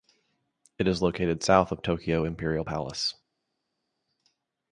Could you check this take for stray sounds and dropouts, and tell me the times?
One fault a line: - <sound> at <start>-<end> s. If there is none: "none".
none